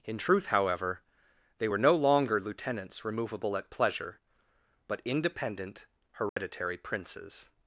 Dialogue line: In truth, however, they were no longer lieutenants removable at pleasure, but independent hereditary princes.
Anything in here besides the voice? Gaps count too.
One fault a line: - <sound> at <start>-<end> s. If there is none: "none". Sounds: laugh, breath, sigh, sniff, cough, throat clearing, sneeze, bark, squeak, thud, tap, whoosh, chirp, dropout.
- dropout at 6.3-6.4 s